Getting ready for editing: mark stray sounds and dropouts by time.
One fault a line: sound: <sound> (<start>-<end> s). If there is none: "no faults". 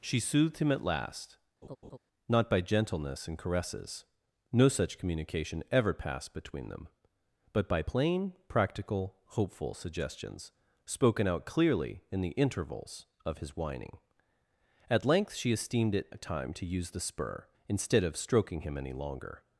sound: laugh (1.6-2.0 s)